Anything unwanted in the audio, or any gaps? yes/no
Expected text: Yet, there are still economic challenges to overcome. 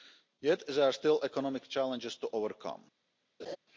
yes